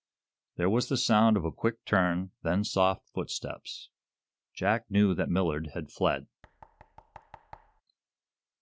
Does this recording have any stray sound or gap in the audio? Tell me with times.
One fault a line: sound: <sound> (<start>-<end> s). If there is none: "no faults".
sound: thud (6.4-7.8 s)